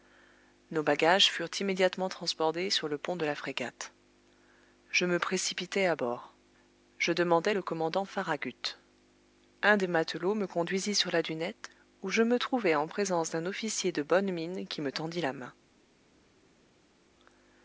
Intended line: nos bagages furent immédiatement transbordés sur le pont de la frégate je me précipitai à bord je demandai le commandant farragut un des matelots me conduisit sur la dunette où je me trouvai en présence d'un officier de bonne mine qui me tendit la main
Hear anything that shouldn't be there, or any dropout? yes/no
no